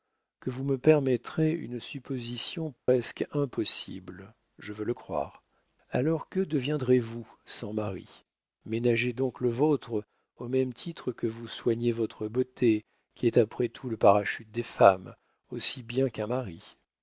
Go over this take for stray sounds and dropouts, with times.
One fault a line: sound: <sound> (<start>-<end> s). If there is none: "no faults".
sound: dropout (2.8-2.9 s)